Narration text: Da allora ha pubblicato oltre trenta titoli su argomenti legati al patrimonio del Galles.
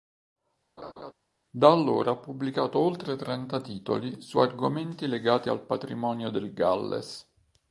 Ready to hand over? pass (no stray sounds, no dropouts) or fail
fail